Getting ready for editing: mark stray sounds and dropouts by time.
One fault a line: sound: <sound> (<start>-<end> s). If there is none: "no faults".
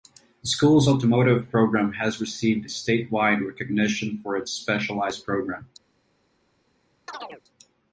sound: chirp (7.1-7.4 s)